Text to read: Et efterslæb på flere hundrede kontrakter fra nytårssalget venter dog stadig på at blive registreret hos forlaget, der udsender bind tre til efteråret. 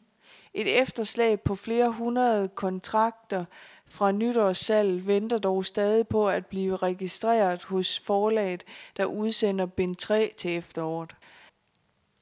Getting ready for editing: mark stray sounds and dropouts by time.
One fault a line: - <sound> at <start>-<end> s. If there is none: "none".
none